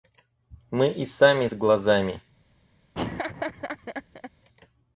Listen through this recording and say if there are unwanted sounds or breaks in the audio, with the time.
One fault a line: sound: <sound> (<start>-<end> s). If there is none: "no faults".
sound: laugh (2.9-4.3 s)